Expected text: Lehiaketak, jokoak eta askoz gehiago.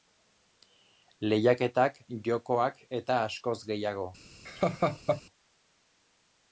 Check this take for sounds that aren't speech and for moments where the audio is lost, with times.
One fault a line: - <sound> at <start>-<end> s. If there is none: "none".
- laugh at 4.5-5.2 s